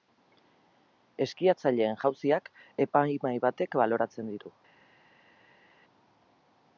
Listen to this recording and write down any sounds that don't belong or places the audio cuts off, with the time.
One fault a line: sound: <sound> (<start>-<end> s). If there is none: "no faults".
no faults